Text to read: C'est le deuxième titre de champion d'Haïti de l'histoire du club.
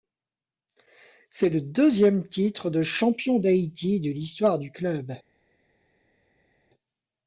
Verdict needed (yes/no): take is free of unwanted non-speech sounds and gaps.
yes